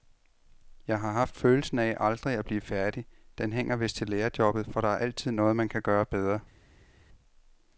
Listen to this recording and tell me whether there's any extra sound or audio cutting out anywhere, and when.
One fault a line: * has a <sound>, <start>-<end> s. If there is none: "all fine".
all fine